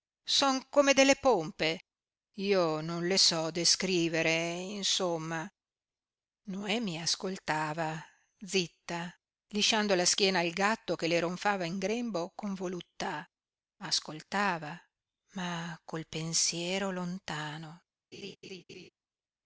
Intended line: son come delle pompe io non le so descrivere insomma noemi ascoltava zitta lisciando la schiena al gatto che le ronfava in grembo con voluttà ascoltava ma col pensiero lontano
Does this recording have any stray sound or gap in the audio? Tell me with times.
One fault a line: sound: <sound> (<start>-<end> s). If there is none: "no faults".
sound: laugh (18.1-18.9 s)